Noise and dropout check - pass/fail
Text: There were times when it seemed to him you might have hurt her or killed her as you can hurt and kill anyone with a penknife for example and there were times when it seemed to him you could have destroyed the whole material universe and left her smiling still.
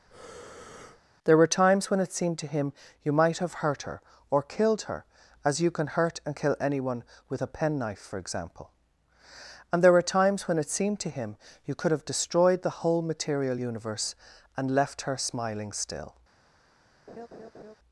fail